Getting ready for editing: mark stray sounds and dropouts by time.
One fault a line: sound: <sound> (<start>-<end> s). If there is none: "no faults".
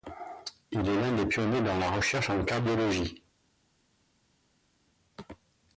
no faults